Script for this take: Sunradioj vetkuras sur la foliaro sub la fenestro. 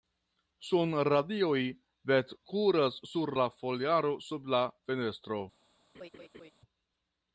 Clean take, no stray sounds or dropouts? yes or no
no